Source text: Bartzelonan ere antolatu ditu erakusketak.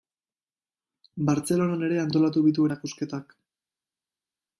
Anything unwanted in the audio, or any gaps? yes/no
no